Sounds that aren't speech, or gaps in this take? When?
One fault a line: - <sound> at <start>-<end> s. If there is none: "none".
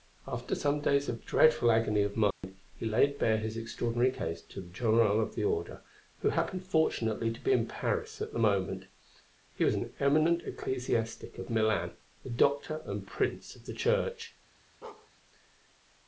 - dropout at 2.3-2.4 s
- bark at 14.8-15.1 s